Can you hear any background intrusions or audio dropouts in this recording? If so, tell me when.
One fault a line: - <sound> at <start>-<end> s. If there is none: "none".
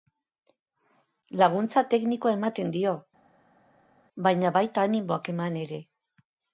none